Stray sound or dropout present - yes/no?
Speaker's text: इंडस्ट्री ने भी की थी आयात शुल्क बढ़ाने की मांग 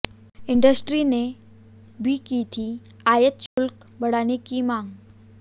yes